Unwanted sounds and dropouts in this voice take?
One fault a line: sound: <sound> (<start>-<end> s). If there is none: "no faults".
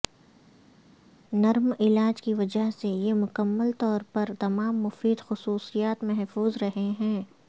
no faults